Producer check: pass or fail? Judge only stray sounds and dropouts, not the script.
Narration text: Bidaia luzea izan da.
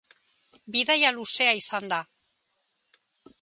pass